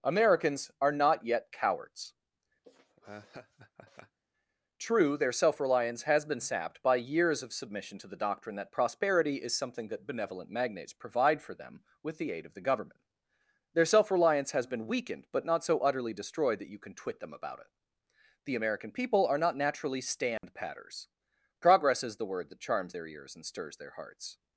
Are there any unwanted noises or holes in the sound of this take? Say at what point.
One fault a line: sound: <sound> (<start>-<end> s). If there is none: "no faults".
sound: laugh (2.6-4.2 s)
sound: dropout (20.4-20.4 s)